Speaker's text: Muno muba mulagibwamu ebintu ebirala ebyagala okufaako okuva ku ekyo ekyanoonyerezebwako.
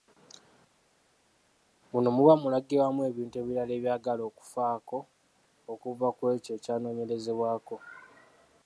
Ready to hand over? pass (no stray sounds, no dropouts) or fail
pass